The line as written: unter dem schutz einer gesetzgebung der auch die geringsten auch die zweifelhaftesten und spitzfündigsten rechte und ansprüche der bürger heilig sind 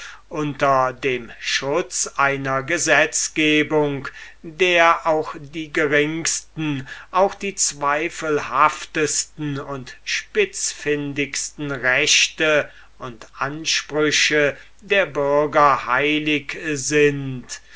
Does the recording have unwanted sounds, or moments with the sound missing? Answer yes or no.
no